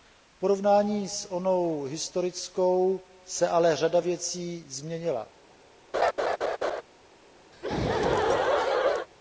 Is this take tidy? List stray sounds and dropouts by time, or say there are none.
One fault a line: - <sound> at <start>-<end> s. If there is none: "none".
- laugh at 5.9-6.8 s
- laugh at 7.5-9.1 s